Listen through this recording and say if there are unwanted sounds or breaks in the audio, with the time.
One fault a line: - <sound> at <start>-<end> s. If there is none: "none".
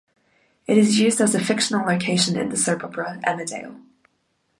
none